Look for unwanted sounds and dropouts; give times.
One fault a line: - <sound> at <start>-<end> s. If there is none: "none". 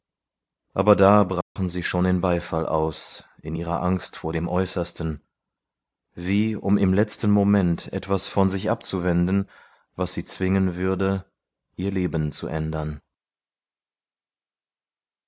- dropout at 1.4-1.6 s